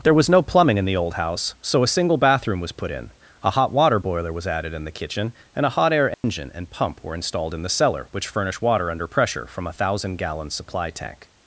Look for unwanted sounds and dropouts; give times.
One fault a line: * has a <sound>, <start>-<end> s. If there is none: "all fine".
* has a dropout, 6.1-6.2 s